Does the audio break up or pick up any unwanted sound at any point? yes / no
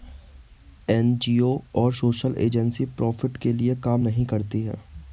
no